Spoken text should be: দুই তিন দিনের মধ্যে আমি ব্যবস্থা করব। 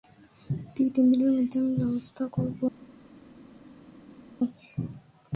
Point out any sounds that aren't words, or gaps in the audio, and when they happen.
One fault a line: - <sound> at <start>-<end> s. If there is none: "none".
none